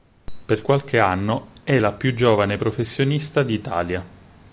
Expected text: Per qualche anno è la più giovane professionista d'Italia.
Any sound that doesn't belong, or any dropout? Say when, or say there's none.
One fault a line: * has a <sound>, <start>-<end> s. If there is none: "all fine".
all fine